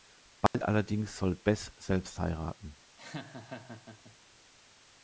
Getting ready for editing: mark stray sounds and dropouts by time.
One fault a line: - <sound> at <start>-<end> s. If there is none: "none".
- dropout at 0.5-0.5 s
- laugh at 3.0-4.2 s